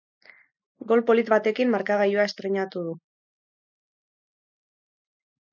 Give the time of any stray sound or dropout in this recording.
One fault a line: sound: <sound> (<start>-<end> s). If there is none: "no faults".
no faults